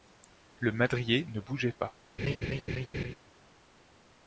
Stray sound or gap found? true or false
true